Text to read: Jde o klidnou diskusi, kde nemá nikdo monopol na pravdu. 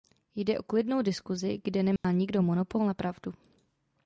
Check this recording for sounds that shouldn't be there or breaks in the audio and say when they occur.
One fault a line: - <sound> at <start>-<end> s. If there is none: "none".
- dropout at 2.0-2.0 s